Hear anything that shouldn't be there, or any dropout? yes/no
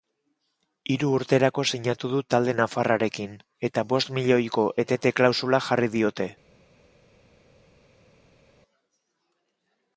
no